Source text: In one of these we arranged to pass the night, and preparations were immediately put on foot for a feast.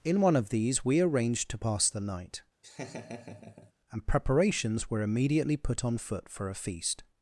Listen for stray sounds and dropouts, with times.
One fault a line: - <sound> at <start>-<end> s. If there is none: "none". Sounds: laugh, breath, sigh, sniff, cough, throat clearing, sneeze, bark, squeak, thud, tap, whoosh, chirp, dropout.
- laugh at 2.6-3.7 s